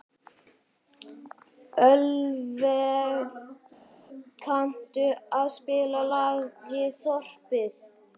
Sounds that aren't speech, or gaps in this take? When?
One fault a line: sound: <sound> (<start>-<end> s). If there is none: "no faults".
no faults